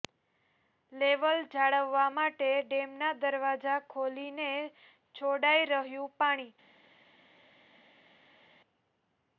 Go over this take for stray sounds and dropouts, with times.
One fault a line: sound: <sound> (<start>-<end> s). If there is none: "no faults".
no faults